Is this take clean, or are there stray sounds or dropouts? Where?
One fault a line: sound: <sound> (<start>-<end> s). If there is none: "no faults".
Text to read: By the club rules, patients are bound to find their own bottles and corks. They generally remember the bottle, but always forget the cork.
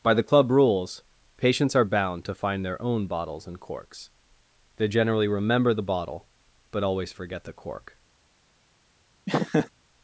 sound: laugh (9.3-9.7 s)